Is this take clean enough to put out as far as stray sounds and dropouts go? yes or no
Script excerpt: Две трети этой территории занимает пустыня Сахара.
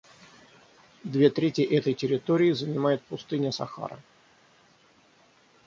yes